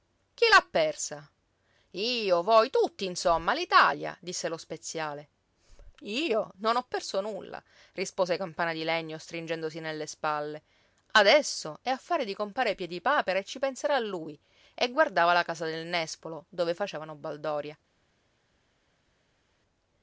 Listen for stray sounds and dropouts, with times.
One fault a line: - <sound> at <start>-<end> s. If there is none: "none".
none